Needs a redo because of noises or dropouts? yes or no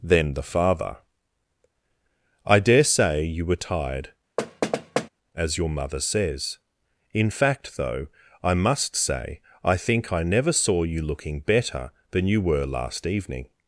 yes